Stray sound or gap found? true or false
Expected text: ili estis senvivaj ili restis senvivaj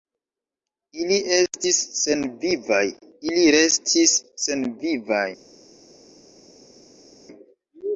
false